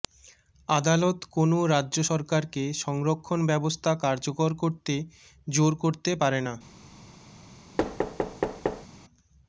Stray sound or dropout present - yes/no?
yes